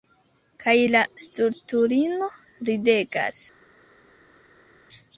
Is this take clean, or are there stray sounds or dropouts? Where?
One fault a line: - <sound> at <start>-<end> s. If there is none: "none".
none